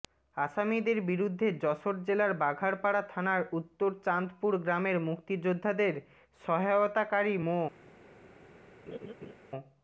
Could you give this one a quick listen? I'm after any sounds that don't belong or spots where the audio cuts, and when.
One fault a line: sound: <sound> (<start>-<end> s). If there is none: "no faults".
sound: laugh (8.9-9.3 s)